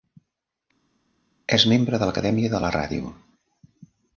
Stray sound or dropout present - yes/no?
no